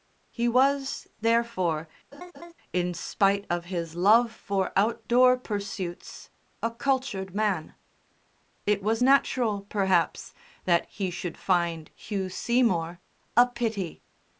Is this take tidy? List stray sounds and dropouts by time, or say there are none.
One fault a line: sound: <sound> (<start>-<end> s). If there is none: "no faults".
sound: laugh (2.1-2.5 s)